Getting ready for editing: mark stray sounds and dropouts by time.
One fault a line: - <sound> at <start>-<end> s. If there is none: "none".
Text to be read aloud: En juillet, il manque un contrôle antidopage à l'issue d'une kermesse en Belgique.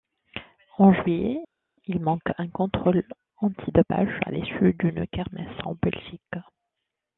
none